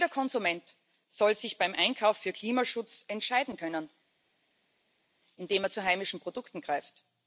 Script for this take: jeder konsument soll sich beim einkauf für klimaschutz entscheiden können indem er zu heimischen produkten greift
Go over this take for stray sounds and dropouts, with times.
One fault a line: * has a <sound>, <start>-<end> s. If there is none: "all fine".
all fine